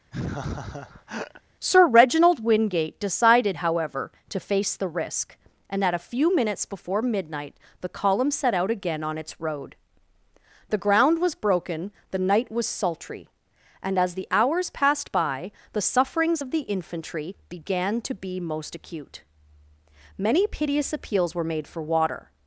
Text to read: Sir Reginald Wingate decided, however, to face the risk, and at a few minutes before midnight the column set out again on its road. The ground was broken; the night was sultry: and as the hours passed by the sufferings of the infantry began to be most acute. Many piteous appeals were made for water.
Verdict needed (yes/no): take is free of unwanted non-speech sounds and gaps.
no